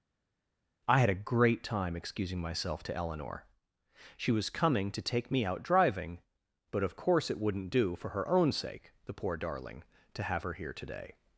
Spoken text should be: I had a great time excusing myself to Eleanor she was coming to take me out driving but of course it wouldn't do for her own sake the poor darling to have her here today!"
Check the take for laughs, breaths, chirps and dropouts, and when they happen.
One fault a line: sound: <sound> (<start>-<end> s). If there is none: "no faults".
no faults